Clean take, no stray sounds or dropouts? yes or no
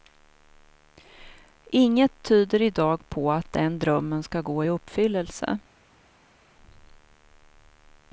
yes